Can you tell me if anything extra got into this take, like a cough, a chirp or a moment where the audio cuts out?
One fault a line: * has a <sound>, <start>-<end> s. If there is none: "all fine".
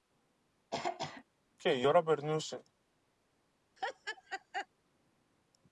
* has a throat clearing, 0.7-1.2 s
* has a laugh, 3.8-4.7 s